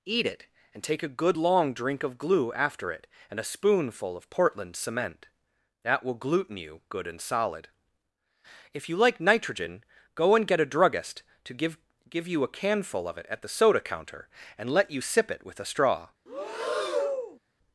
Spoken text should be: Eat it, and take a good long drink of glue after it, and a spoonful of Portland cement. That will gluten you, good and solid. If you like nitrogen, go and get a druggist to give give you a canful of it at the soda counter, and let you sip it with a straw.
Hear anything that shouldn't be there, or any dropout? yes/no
yes